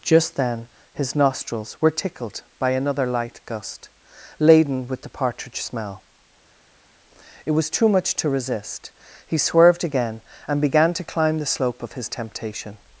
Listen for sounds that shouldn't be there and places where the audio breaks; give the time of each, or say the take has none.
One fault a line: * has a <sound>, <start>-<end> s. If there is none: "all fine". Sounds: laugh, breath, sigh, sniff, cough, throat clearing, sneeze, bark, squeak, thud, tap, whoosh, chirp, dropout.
all fine